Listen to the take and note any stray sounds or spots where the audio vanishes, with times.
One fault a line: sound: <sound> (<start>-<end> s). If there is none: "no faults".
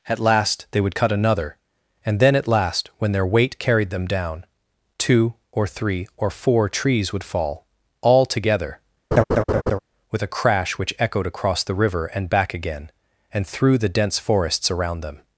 sound: laugh (9.1-9.8 s)